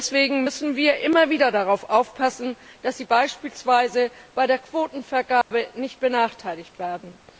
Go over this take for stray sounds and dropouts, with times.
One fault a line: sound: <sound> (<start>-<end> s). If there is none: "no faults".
sound: dropout (5.4-5.5 s)